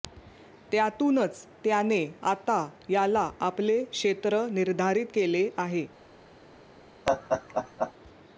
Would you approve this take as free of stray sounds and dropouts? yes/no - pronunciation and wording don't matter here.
no